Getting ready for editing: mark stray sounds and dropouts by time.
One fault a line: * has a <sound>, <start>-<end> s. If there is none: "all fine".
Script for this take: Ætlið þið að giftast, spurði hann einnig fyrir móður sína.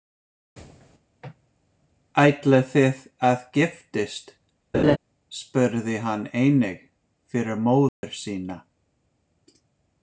* has a laugh, 4.7-5.0 s
* has a dropout, 7.9-8.0 s